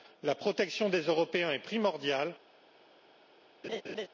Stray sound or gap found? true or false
true